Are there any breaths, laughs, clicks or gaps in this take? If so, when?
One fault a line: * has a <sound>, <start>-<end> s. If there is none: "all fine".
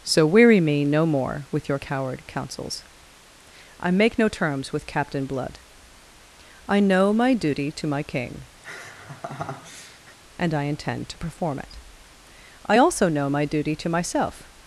* has a laugh, 8.6-10.2 s